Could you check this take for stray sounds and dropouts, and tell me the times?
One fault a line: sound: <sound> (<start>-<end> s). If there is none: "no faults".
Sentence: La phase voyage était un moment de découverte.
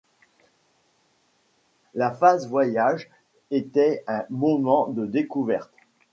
no faults